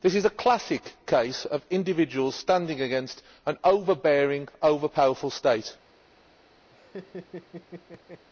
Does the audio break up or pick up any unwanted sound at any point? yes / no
yes